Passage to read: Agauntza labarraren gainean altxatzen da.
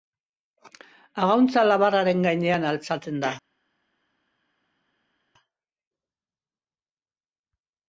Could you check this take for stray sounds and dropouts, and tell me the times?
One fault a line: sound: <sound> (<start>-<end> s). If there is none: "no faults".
no faults